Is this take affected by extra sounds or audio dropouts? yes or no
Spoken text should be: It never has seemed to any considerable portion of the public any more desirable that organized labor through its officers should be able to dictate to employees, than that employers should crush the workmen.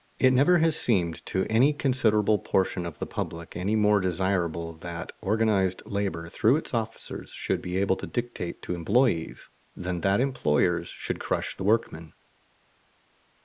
no